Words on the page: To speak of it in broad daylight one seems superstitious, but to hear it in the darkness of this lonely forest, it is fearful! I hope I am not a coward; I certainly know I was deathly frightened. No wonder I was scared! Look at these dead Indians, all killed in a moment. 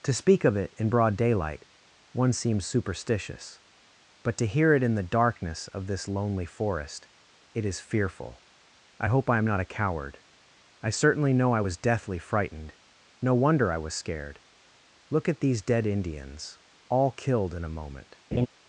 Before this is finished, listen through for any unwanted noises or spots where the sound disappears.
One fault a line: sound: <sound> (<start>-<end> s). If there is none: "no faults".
sound: laugh (18.3-18.5 s)